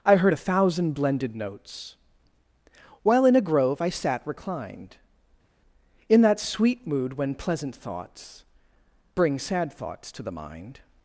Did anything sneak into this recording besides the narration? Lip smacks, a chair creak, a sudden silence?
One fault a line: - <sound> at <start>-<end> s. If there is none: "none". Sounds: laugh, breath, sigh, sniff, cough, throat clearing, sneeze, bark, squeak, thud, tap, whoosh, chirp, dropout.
none